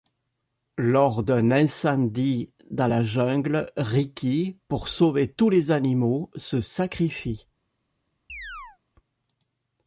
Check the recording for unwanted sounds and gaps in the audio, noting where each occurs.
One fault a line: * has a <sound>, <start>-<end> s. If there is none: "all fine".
* has a chirp, 8.3-8.8 s